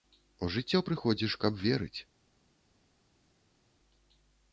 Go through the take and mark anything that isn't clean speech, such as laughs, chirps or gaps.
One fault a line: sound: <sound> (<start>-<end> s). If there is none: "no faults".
no faults